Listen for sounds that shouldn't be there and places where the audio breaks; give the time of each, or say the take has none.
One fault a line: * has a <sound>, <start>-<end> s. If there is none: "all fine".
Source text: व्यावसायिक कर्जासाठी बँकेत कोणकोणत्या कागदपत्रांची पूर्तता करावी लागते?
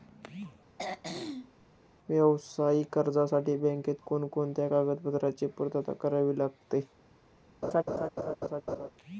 * has a throat clearing, 0.8-1.7 s
* has a laugh, 7.6-8.9 s